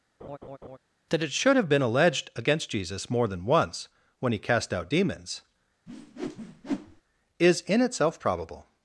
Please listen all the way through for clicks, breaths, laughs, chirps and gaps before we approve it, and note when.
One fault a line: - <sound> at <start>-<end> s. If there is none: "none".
- laugh at 0.2-0.8 s
- whoosh at 5.9-7.0 s